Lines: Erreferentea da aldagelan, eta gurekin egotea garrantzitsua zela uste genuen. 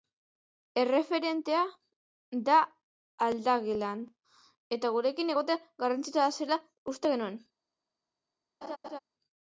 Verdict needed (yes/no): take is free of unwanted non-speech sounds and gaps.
no